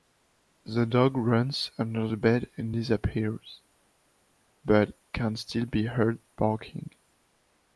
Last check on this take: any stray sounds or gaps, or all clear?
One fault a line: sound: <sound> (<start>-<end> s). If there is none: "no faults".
no faults